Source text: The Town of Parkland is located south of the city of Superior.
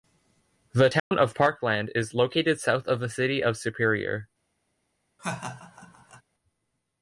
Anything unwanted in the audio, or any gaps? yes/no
yes